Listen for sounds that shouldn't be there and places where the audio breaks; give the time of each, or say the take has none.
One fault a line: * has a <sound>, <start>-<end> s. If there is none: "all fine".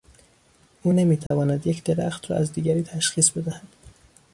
* has a dropout, 1.3-1.3 s